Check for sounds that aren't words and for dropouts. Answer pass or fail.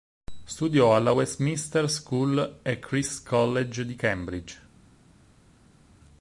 pass